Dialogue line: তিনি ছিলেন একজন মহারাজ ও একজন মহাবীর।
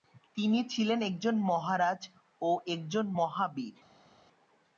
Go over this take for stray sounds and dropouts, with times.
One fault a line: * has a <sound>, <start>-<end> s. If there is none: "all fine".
all fine